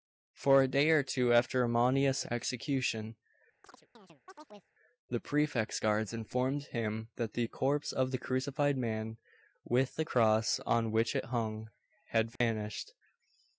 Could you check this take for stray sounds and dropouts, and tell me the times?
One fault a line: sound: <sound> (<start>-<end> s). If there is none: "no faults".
sound: chirp (3.6-4.7 s)
sound: dropout (12.4-12.4 s)